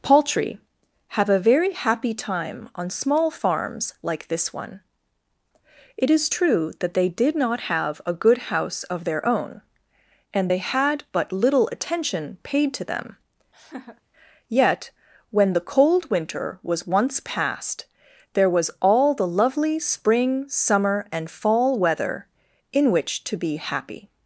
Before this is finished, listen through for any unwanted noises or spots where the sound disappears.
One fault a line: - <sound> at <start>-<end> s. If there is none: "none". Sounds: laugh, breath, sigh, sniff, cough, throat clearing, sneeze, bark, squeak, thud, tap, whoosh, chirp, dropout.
- laugh at 13.5-14.0 s